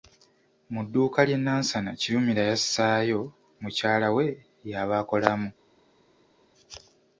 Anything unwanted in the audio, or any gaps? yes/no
no